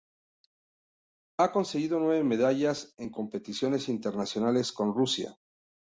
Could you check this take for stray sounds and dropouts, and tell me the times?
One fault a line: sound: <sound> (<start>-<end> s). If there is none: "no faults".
no faults